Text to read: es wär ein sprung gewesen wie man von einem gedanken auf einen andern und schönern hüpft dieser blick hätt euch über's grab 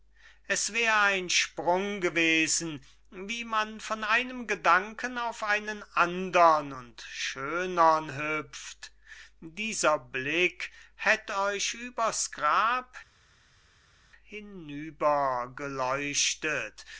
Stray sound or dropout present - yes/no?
no